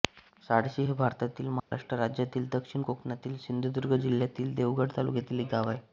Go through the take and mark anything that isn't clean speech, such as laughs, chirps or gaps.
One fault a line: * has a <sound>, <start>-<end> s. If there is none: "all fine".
* has a dropout, 1.6-1.7 s